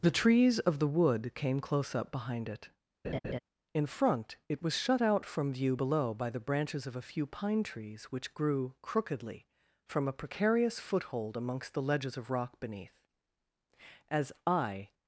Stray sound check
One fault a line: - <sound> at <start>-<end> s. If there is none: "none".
- laugh at 3.0-3.4 s